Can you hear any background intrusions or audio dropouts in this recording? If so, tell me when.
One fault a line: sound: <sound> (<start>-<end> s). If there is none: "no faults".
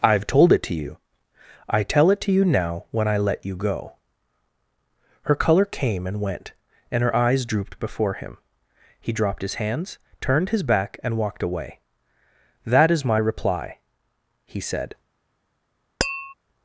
sound: tap (16.0-16.3 s)